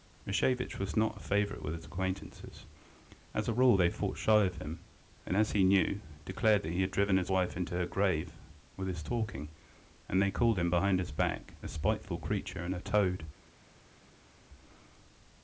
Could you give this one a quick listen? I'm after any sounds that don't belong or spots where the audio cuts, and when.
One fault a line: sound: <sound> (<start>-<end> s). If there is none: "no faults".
no faults